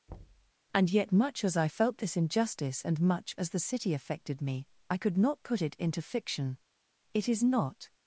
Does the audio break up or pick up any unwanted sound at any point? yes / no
yes